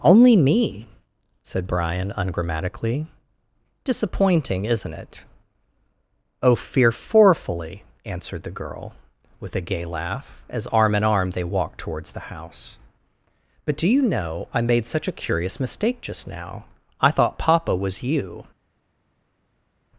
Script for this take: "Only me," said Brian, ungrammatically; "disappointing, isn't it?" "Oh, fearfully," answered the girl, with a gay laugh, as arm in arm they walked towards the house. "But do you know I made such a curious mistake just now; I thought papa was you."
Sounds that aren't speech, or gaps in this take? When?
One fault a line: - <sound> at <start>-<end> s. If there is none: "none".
none